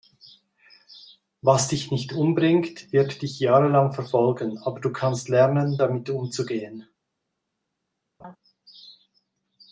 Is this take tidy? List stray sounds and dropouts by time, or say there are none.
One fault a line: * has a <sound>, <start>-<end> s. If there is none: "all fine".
* has a laugh, 8.2-8.4 s